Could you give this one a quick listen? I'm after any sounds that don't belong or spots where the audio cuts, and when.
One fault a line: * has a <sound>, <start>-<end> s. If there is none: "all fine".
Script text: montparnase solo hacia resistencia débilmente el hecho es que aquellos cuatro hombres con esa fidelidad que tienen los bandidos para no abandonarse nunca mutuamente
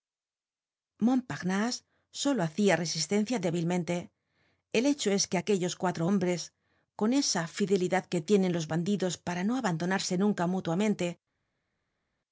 all fine